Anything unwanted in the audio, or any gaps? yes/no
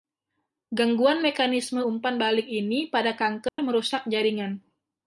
yes